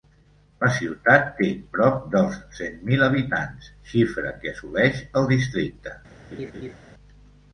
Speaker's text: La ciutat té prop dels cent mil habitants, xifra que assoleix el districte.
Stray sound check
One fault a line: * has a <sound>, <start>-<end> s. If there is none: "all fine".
* has a laugh, 6.3-6.7 s